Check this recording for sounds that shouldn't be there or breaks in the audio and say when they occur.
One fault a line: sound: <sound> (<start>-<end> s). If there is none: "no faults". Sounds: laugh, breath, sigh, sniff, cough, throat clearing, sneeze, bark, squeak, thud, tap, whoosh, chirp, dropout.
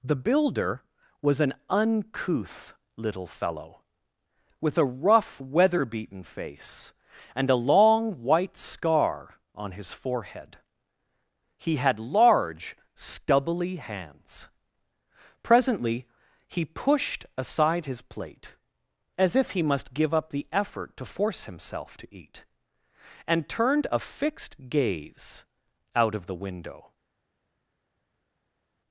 no faults